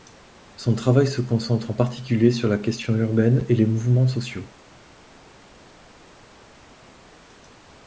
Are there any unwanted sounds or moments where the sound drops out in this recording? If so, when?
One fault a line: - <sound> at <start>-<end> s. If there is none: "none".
none